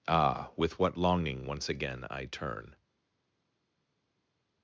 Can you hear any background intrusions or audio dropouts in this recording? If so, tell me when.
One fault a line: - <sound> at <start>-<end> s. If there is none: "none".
none